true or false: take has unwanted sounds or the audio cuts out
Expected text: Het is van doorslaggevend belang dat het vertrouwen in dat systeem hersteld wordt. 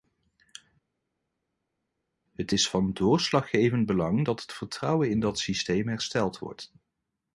false